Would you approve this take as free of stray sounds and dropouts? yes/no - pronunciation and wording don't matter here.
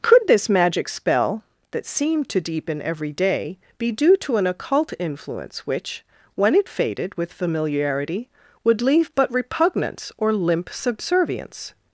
yes